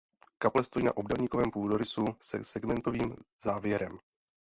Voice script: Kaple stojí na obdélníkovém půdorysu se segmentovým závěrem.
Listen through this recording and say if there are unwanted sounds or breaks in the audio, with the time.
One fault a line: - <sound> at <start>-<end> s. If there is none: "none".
none